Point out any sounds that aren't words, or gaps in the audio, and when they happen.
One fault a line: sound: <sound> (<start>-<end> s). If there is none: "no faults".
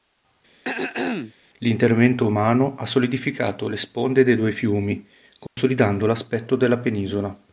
sound: throat clearing (0.6-1.3 s)
sound: dropout (5.5-5.6 s)